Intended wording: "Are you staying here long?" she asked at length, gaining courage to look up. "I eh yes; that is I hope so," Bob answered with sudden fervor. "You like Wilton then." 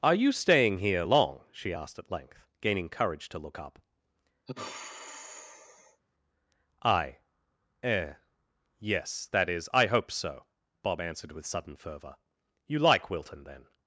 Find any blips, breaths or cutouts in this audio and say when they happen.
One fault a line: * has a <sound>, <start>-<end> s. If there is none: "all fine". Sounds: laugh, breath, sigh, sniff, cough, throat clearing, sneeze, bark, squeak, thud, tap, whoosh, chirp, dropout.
* has a sigh, 4.5-6.0 s